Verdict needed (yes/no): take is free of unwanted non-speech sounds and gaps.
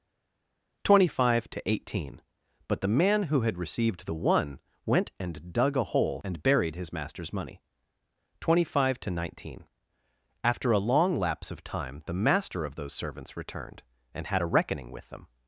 yes